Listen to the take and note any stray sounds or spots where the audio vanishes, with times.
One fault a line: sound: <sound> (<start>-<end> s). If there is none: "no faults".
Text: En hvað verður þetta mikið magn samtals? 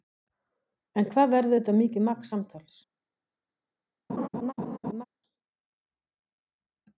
sound: laugh (4.1-5.0 s)